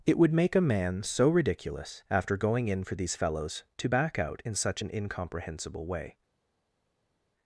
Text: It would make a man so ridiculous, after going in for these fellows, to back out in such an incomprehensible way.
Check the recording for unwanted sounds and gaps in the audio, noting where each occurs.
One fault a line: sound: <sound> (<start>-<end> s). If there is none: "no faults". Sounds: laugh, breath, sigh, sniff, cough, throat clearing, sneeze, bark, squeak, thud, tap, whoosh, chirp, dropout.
no faults